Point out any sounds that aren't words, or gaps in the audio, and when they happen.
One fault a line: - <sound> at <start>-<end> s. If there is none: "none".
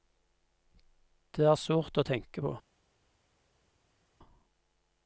none